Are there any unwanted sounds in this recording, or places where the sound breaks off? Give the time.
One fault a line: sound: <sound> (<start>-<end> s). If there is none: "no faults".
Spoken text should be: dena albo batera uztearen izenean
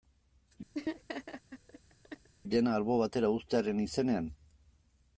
sound: laugh (0.7-2.3 s)